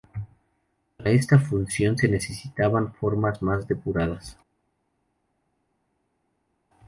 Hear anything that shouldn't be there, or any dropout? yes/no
no